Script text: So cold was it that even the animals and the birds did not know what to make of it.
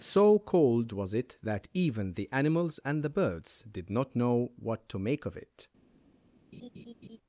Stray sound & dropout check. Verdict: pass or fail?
fail